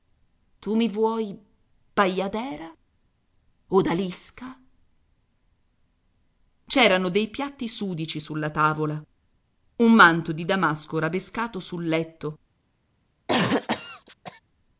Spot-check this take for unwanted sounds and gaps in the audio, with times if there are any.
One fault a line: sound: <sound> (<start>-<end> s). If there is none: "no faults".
sound: cough (13.3-14.4 s)